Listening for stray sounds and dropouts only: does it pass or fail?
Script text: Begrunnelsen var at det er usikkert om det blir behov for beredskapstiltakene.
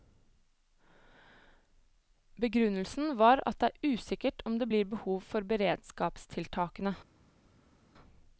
pass